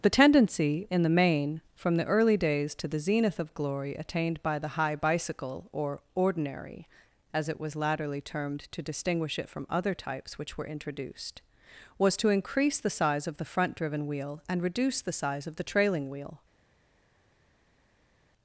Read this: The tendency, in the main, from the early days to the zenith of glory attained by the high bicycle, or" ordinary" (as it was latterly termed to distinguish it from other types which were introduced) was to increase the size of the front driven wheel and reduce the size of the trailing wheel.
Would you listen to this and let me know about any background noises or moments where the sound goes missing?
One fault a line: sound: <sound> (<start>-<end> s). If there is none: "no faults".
no faults